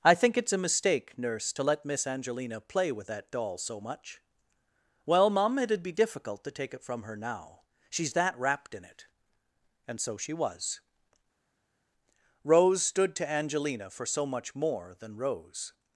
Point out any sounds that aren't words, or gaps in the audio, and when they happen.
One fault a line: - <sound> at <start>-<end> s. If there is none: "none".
none